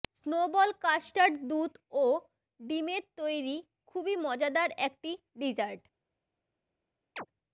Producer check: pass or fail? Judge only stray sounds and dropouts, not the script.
fail